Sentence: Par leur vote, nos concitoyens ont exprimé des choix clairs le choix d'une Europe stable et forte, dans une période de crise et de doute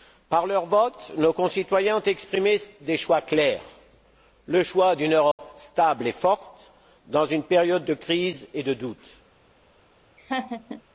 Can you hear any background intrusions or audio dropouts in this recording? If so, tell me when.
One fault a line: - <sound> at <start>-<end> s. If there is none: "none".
- dropout at 5.3-5.4 s
- laugh at 10.2-10.8 s